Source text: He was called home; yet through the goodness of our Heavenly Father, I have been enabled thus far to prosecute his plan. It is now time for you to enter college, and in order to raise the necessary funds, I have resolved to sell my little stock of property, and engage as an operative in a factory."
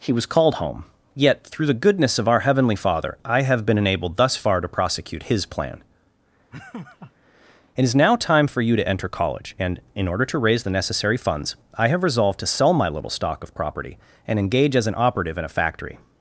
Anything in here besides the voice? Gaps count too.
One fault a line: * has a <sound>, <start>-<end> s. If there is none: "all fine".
* has a laugh, 6.5-7.1 s